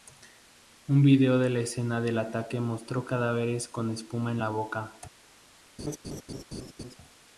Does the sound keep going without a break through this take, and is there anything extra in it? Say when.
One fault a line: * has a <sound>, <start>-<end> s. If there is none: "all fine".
* has a laugh, 5.8-7.0 s